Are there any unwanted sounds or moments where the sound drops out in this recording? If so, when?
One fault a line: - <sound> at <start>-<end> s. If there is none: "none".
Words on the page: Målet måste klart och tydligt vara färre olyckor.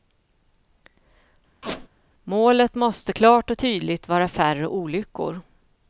- squeak at 1.6-1.9 s